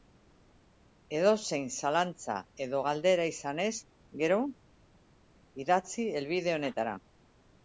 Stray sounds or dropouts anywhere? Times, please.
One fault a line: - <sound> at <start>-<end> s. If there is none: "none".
none